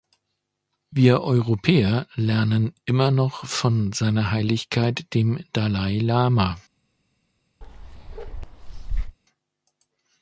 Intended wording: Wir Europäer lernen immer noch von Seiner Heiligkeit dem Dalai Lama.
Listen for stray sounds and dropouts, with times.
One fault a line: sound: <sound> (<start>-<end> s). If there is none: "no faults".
sound: bark (7.6-9.2 s)